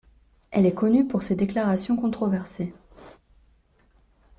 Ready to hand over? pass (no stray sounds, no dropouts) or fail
pass